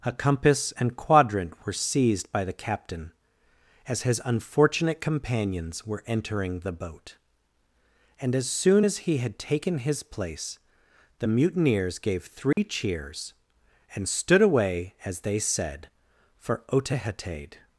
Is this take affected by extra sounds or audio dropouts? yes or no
yes